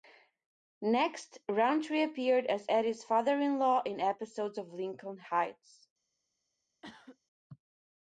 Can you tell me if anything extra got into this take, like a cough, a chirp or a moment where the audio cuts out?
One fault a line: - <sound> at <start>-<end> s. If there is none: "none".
- cough at 6.8-7.2 s